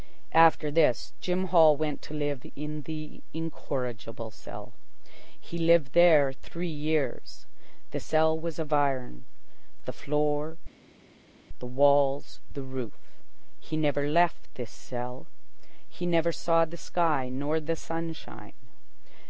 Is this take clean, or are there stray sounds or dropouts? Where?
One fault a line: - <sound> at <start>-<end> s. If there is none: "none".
none